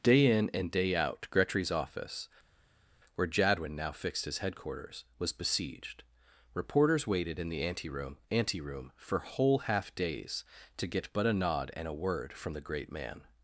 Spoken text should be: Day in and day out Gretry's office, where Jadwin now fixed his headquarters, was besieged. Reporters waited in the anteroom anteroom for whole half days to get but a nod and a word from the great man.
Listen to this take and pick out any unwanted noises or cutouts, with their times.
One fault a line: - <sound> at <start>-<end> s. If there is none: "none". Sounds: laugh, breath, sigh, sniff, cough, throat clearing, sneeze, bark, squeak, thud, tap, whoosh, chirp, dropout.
none